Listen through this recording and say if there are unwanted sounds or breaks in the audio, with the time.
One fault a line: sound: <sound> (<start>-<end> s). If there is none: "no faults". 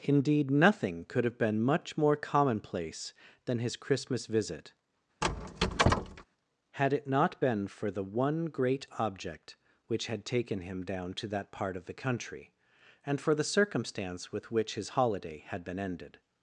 sound: squeak (5.2-6.2 s)